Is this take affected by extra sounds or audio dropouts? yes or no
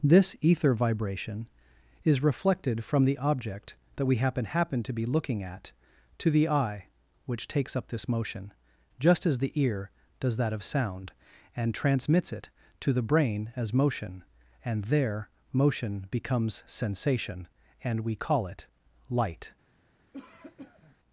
yes